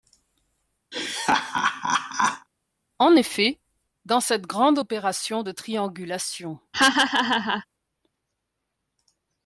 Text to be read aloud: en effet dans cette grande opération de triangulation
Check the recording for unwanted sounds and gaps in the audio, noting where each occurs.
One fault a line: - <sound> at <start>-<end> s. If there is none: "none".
- laugh at 0.9-2.5 s
- laugh at 6.7-7.7 s